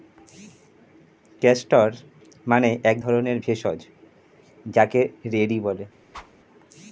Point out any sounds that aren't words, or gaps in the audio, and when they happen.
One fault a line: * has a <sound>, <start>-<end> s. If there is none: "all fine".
* has a whoosh, 6.1-6.3 s